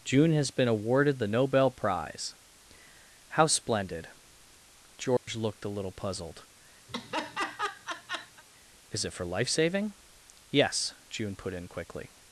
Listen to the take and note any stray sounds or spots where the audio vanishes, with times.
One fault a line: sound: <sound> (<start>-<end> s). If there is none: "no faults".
sound: dropout (5.2-5.3 s)
sound: laugh (6.9-8.4 s)